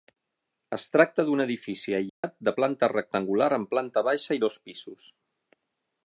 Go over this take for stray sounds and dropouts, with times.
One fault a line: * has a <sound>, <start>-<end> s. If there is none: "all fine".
* has a dropout, 2.1-2.2 s